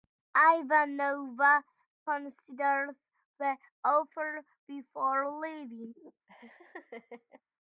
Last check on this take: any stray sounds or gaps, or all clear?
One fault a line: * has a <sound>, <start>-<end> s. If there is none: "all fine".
* has a laugh, 6.3-7.4 s